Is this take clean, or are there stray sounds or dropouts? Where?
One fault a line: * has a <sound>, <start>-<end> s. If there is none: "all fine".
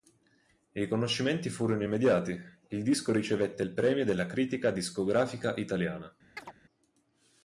* has a chirp, 6.4-6.5 s